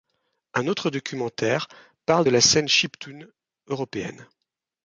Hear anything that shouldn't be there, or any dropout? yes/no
no